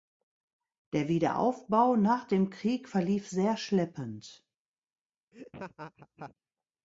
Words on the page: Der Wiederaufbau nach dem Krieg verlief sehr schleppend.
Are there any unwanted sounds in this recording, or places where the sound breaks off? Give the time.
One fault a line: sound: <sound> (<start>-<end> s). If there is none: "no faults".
sound: laugh (5.3-6.3 s)